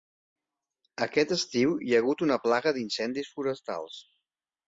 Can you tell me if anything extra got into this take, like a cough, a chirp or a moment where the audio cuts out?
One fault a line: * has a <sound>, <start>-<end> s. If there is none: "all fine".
all fine